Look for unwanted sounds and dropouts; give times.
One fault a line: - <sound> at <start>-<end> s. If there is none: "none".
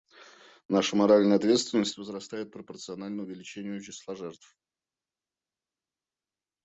none